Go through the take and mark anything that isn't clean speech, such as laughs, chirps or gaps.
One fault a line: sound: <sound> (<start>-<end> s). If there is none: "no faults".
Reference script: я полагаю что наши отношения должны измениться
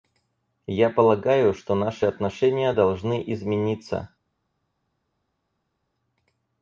no faults